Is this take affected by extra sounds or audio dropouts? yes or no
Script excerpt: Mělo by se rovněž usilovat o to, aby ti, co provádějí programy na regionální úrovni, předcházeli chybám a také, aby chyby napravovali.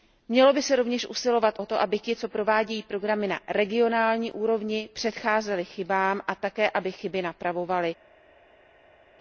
no